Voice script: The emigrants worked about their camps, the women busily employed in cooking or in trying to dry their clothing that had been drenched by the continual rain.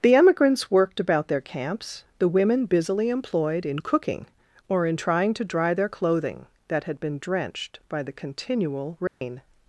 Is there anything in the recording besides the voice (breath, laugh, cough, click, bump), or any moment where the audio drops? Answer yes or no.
yes